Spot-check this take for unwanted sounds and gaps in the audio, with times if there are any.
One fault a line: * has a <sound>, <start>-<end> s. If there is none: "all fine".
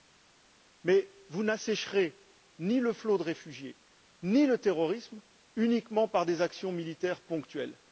all fine